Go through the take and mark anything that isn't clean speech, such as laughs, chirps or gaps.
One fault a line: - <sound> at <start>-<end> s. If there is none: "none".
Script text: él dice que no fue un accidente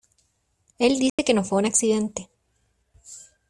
- dropout at 1.1-1.2 s